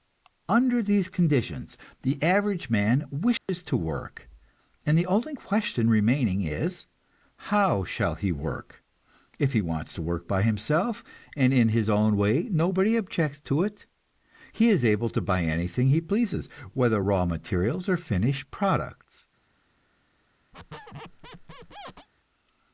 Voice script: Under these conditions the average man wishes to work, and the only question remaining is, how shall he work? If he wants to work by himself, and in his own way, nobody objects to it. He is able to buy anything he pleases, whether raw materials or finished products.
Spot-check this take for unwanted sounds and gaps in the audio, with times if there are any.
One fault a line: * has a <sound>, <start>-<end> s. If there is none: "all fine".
* has a dropout, 3.4-3.5 s
* has a squeak, 20.5-22.1 s